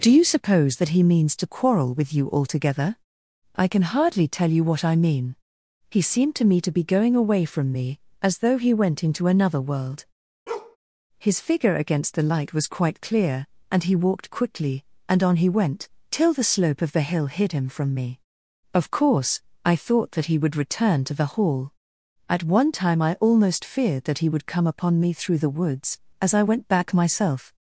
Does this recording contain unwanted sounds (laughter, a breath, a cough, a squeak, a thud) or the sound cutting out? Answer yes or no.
yes